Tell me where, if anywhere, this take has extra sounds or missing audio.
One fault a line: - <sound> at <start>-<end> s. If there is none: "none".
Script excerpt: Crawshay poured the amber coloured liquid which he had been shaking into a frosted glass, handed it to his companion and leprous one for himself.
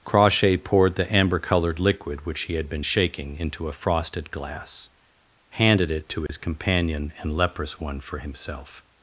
- dropout at 6.3-6.3 s